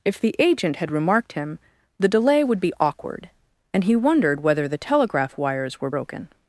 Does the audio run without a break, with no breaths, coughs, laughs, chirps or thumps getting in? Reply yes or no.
yes